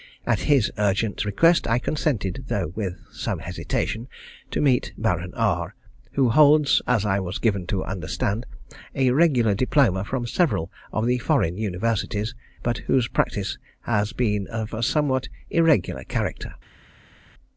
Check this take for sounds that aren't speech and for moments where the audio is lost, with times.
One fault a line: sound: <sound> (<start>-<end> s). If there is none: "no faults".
no faults